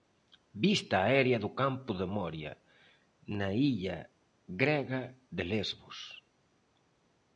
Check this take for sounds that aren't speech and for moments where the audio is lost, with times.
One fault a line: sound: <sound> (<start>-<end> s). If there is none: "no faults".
no faults